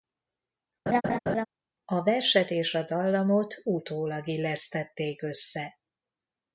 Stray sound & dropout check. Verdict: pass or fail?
fail